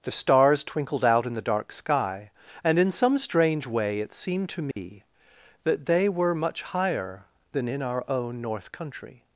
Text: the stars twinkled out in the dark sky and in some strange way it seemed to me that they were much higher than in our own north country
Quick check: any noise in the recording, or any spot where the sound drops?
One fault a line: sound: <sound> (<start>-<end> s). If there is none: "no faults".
sound: dropout (4.7-4.8 s)